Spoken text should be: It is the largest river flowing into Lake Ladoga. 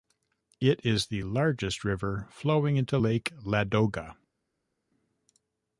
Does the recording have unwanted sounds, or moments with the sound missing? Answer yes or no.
no